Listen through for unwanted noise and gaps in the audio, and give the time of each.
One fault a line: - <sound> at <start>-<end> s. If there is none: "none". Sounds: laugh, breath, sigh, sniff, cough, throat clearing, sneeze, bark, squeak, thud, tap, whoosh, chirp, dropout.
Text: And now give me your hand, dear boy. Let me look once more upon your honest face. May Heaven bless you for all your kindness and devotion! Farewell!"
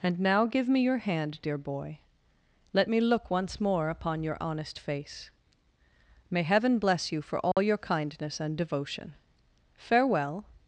- dropout at 7.5-7.6 s